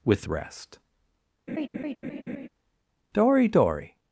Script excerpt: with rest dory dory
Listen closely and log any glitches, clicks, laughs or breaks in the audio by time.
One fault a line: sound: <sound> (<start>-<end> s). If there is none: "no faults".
sound: laugh (1.5-2.5 s)